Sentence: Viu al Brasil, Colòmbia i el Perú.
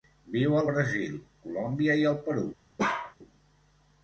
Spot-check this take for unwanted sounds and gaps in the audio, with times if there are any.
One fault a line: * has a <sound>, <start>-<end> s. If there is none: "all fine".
* has a bark, 2.8-3.2 s